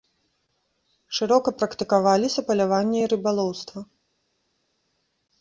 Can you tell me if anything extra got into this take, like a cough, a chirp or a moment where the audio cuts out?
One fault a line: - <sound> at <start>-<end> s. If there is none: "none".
none